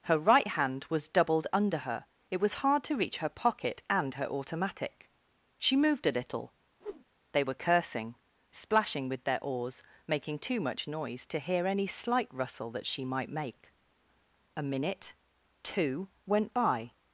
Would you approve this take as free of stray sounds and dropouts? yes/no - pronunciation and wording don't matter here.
no